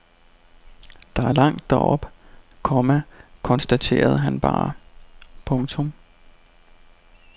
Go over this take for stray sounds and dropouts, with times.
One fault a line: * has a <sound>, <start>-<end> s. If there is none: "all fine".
all fine